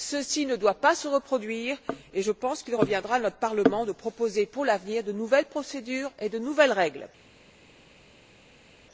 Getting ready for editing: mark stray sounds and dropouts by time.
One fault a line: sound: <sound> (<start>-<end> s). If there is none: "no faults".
no faults